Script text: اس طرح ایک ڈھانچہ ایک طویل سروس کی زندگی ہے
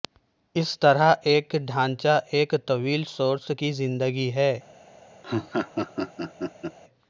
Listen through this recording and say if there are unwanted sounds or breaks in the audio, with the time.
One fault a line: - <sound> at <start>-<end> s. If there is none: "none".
- laugh at 5.2-6.8 s